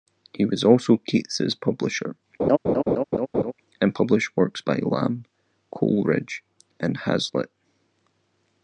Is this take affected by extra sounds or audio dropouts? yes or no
yes